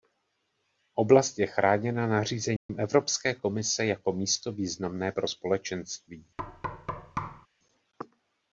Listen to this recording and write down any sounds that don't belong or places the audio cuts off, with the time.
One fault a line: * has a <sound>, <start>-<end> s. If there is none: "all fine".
* has a dropout, 2.6-2.7 s
* has a thud, 6.4-7.5 s